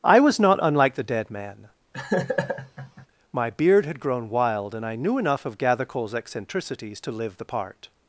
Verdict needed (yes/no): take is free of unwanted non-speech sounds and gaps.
no